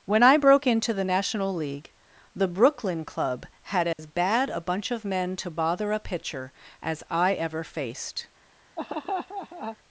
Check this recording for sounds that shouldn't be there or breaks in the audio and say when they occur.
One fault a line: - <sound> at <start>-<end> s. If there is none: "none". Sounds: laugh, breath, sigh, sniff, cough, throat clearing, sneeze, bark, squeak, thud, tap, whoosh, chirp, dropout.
- dropout at 3.9-4.0 s
- laugh at 8.8-9.8 s